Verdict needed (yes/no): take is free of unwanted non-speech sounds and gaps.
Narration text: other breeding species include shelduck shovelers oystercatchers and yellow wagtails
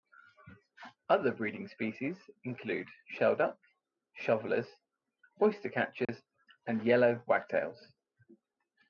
no